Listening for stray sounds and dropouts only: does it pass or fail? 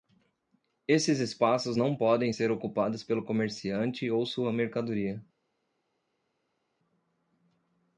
pass